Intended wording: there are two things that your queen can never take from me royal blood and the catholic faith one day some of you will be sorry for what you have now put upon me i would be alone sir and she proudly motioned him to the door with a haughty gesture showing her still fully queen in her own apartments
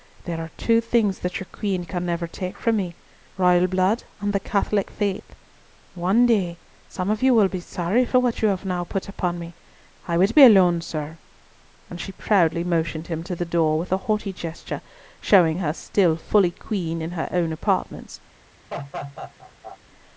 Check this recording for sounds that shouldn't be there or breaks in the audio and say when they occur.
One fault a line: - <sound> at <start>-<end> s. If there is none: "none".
- laugh at 18.7-19.8 s